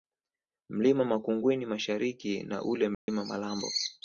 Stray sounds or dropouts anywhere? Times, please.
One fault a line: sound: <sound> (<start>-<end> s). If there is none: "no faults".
sound: dropout (2.9-3.1 s)